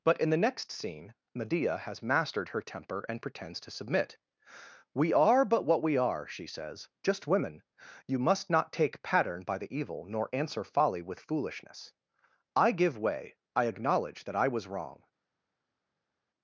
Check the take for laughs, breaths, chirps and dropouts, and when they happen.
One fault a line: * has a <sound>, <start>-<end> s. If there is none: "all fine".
all fine